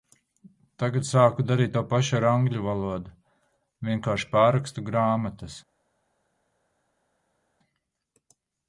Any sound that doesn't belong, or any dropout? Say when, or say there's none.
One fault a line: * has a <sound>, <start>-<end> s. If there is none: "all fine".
all fine